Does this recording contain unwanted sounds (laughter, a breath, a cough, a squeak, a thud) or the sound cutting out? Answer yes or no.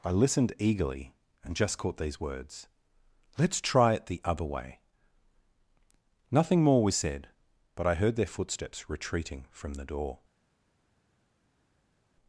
no